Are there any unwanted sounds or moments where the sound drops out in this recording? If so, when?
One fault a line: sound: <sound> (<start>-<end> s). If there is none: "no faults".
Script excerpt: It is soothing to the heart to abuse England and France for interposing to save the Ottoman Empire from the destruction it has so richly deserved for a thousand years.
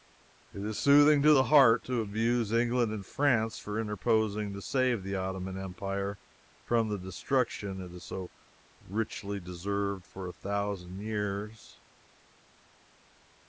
no faults